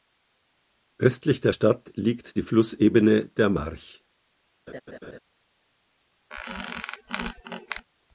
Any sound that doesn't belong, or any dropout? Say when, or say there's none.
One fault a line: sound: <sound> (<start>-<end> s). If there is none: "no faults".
sound: laugh (4.7-5.2 s)
sound: squeak (6.3-7.9 s)